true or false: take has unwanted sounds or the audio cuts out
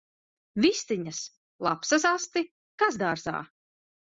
false